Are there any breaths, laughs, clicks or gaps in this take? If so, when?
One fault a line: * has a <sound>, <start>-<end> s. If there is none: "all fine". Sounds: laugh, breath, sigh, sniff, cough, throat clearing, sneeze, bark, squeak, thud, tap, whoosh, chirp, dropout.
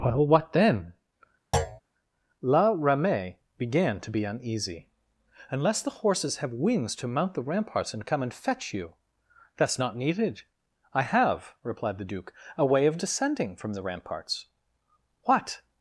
* has a thud, 1.5-1.8 s